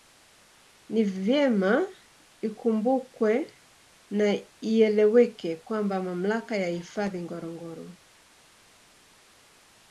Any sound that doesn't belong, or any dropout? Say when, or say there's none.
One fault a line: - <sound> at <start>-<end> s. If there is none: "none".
none